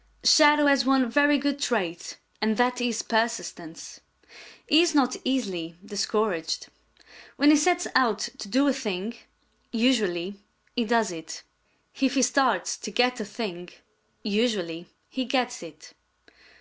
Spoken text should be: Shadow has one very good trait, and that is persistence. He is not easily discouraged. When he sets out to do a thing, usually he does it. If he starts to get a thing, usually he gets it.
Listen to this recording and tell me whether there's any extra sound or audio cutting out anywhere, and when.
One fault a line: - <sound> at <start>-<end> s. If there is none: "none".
none